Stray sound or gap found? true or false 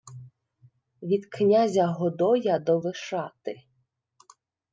false